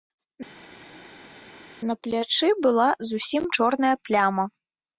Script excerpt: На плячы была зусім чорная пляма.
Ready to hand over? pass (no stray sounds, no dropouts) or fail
pass